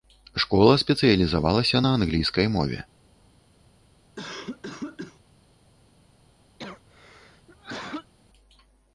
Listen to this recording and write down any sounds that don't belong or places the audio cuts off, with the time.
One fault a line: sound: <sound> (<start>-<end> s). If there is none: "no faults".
sound: cough (4.2-5.2 s)
sound: cough (6.6-8.1 s)